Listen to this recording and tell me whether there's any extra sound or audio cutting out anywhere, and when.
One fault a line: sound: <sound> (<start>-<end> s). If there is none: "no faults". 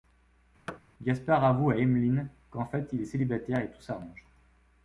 sound: thud (0.7-0.8 s)